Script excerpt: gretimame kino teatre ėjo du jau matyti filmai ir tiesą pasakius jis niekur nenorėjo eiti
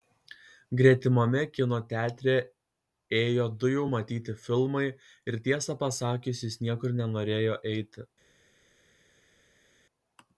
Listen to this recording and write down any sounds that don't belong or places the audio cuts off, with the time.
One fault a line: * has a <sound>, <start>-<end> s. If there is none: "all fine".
all fine